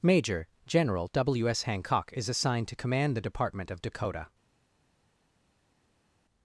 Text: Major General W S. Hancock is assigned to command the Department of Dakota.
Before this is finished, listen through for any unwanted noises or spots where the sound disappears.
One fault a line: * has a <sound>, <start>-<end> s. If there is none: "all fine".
all fine